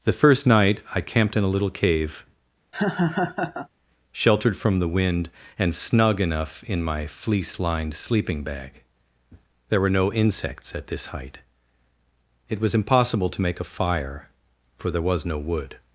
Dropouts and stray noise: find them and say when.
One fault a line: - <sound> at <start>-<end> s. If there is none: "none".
- laugh at 2.7-3.7 s